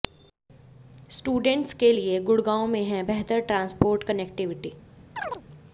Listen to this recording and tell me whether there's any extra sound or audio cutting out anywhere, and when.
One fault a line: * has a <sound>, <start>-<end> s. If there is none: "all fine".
* has a chirp, 5.2-5.4 s